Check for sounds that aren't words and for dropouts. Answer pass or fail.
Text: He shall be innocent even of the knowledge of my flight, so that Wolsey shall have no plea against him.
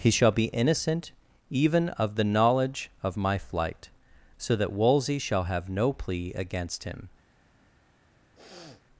fail